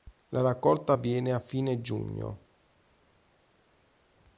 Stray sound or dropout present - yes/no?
no